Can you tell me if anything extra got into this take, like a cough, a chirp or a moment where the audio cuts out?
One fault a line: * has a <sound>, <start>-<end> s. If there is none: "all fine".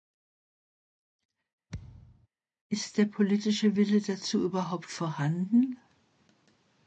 * has a thud, 1.7-2.3 s